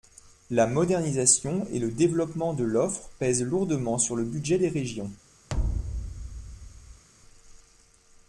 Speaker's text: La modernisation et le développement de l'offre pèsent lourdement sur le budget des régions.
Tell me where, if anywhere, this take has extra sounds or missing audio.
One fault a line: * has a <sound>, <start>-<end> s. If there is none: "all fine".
* has a thud, 5.5-7.0 s